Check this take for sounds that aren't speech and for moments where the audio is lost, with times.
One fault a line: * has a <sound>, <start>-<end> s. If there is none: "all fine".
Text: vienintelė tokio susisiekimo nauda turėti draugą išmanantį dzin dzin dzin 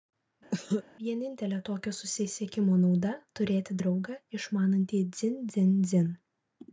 * has a cough, 0.5-0.8 s